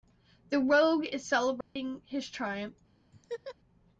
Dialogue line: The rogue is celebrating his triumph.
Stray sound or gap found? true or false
true